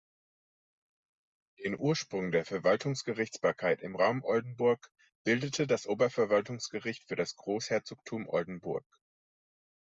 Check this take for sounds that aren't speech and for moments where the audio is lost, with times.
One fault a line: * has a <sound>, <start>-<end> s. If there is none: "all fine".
all fine